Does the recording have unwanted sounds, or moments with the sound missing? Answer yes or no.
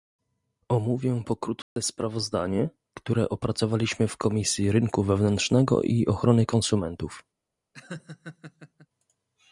yes